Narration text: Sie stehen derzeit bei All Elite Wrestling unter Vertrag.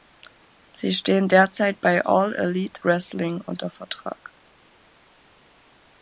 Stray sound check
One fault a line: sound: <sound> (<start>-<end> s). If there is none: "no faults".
no faults